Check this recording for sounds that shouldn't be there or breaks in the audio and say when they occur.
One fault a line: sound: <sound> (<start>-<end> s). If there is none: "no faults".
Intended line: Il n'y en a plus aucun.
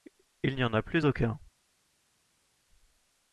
no faults